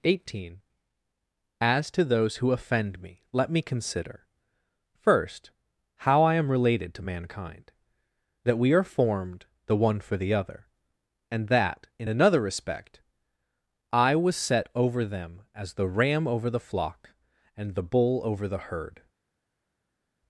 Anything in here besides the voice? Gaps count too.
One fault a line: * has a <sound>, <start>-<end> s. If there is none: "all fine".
all fine